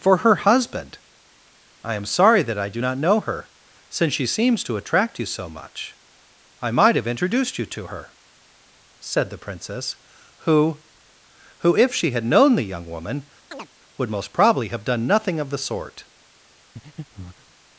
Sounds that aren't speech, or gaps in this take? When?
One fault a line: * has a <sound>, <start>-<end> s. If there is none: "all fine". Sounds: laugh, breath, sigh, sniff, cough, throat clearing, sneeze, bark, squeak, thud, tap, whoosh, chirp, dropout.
* has a chirp, 13.5-13.7 s
* has a breath, 16.8-17.5 s